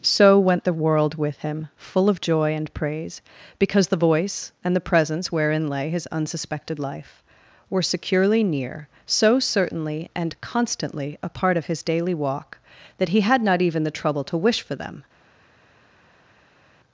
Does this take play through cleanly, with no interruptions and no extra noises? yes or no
yes